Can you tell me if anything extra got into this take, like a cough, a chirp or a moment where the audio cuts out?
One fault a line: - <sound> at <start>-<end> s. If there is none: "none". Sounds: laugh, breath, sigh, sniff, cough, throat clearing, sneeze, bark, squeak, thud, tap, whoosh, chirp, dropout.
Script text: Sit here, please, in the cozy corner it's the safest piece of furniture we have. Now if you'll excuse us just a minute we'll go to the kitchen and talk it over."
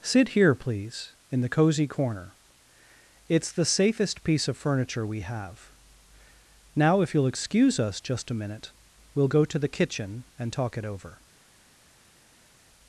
none